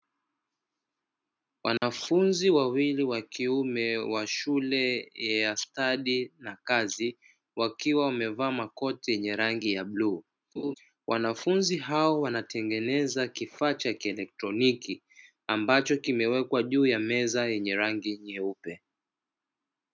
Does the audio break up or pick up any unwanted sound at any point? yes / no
yes